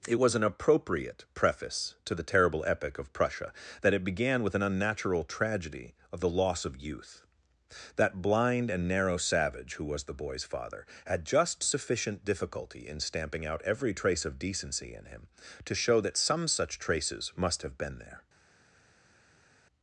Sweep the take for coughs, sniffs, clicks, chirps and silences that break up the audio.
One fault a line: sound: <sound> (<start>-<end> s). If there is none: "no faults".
no faults